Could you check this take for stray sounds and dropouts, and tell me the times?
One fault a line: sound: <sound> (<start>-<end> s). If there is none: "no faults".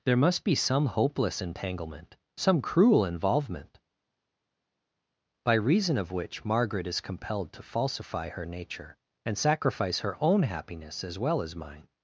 no faults